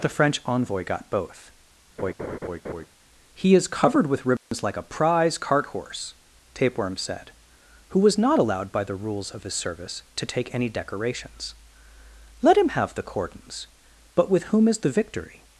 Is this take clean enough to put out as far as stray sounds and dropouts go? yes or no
no